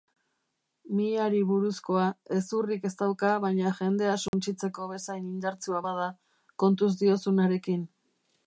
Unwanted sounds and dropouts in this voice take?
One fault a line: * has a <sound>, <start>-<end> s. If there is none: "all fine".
* has a dropout, 4.3-4.3 s